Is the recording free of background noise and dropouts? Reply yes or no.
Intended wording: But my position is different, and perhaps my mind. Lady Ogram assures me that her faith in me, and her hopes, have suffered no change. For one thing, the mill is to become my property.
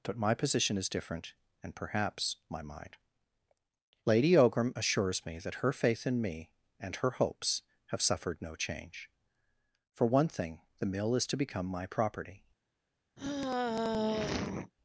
no